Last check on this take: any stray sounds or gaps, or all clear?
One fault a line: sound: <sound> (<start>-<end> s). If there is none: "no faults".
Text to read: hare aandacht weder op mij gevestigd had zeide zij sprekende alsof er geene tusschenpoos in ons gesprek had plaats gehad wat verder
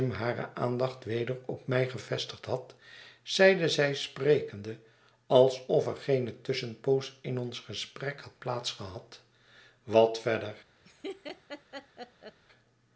sound: laugh (10.8-12.4 s)